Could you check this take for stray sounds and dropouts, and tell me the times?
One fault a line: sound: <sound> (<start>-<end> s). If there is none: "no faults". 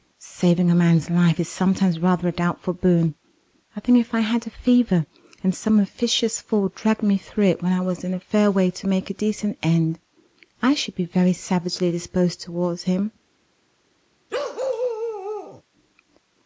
sound: bark (14.3-15.6 s)